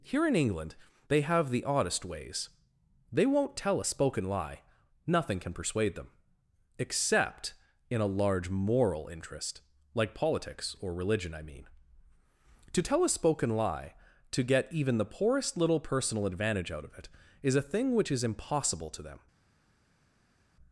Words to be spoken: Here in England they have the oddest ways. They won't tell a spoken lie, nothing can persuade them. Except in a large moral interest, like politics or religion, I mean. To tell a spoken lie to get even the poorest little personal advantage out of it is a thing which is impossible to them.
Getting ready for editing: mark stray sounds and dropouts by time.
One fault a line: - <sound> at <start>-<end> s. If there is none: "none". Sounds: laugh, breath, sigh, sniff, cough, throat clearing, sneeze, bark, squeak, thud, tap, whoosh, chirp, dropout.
none